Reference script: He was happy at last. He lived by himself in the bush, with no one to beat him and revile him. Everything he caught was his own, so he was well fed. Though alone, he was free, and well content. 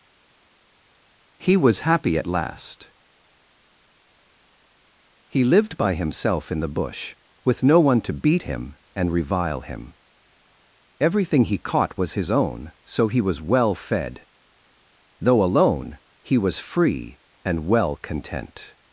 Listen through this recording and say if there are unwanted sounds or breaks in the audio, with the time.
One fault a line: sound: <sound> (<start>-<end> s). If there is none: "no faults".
no faults